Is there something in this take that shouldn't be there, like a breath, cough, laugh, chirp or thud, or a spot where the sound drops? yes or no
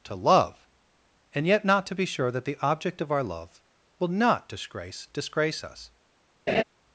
yes